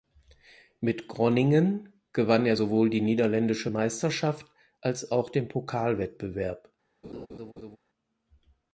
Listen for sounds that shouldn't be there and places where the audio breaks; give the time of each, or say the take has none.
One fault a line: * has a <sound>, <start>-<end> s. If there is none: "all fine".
* has a laugh, 7.0-7.8 s